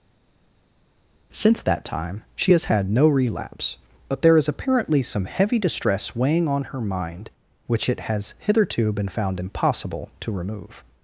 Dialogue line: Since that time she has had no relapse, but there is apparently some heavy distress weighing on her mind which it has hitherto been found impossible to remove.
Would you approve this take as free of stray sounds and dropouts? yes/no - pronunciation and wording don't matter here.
yes